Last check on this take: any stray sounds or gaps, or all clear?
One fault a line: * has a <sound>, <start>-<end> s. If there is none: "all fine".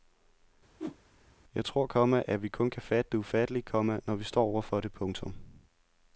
* has a whoosh, 0.8-1.0 s